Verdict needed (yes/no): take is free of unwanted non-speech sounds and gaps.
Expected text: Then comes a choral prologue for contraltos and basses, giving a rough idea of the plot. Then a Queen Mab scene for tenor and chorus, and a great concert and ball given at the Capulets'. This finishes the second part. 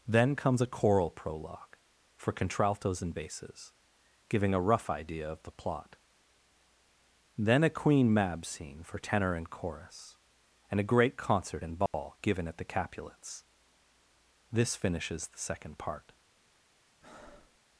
no